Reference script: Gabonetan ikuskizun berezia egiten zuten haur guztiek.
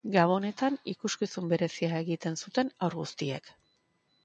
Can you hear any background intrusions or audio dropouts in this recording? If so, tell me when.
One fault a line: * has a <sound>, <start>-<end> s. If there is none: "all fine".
all fine